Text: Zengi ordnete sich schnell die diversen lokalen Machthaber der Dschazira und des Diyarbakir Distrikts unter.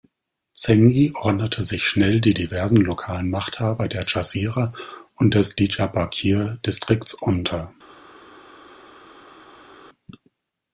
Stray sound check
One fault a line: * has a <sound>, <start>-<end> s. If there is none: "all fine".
all fine